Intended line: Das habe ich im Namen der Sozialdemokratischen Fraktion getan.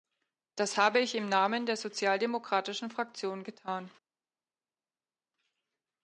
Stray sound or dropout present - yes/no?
no